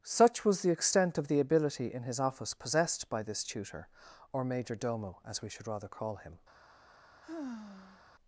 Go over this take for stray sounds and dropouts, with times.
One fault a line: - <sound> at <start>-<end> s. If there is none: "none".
- sigh at 7.2-8.0 s